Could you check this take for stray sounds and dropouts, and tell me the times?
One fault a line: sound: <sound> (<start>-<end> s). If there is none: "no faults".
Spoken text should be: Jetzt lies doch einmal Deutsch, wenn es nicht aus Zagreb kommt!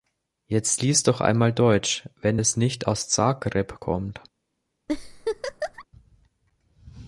sound: laugh (4.9-5.8 s)